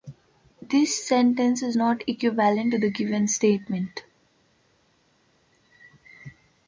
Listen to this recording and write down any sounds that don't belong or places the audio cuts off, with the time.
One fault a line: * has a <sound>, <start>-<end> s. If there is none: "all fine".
all fine